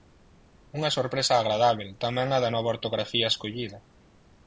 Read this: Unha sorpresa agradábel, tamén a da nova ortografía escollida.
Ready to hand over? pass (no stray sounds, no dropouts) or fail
pass